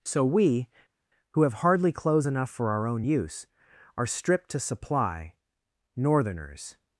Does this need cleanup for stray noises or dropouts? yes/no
no